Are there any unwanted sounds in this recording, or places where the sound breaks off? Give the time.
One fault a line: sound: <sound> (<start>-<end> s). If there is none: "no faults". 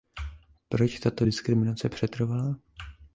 no faults